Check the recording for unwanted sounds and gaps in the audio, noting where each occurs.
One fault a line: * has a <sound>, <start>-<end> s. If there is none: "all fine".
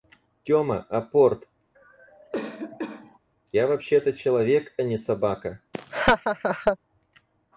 * has a cough, 1.7-3.2 s
* has a laugh, 5.7-6.8 s